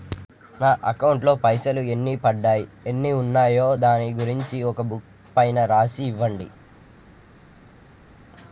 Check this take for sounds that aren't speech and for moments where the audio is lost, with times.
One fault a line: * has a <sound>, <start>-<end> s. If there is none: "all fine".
all fine